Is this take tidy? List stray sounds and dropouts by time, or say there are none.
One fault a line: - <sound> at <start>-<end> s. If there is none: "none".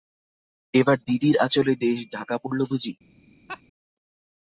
- laugh at 3.5-3.6 s